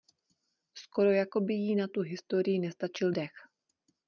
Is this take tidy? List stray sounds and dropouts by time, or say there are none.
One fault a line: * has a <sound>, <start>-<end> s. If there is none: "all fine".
all fine